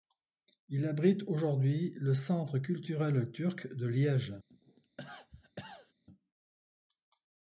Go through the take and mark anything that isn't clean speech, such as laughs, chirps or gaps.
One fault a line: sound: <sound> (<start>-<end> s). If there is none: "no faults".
sound: cough (4.5-5.9 s)